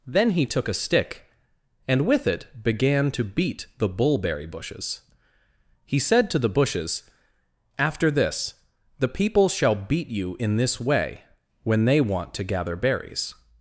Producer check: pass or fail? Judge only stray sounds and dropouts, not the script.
pass